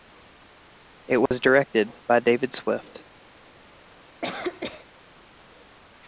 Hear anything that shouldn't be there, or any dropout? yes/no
yes